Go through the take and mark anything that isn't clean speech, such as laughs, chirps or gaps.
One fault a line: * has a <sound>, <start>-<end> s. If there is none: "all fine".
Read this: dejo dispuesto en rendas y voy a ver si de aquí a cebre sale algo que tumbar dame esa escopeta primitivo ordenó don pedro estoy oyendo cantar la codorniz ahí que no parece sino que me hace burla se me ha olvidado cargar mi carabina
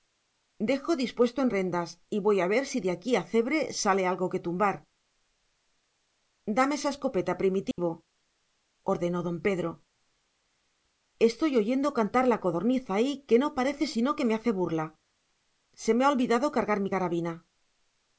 * has a dropout, 7.7-7.8 s